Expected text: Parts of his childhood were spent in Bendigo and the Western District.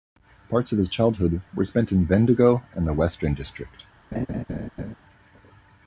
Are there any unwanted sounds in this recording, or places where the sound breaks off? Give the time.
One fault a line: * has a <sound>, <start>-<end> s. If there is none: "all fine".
* has a laugh, 4.1-4.9 s